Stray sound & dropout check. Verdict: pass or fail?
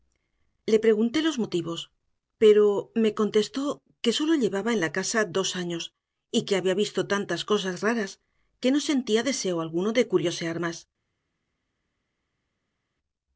pass